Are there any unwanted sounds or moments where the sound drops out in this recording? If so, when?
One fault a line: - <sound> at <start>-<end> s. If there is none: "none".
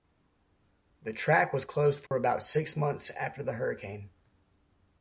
- dropout at 2.1-2.1 s